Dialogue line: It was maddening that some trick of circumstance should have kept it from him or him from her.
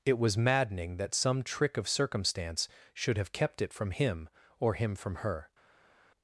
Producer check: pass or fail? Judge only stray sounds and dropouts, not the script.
pass